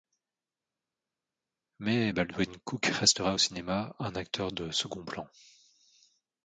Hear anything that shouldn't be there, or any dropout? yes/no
no